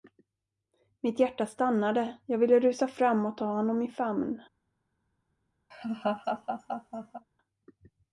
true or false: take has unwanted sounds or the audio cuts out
true